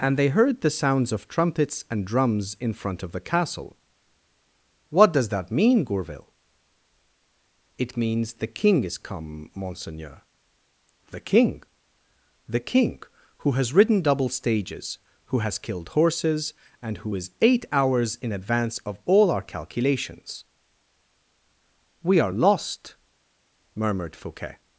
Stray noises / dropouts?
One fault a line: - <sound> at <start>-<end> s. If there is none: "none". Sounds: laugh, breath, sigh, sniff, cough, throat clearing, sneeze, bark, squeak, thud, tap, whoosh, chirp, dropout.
none